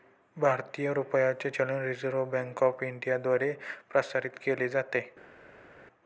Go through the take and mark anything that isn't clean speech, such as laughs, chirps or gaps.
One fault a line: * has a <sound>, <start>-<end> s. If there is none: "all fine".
all fine